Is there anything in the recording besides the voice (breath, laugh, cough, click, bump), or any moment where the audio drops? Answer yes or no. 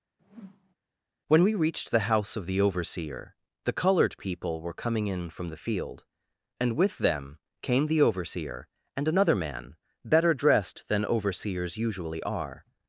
yes